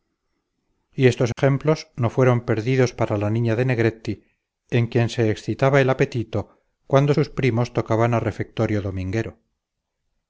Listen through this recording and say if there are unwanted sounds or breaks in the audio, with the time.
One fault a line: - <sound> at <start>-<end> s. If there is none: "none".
- dropout at 1.3-1.4 s